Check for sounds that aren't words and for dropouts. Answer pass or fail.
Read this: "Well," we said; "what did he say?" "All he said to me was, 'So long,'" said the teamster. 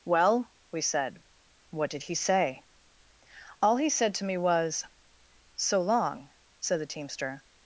pass